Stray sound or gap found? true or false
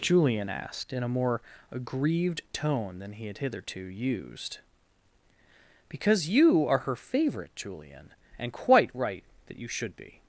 false